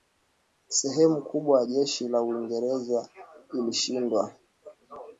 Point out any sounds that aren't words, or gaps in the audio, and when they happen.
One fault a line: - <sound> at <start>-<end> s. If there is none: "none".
none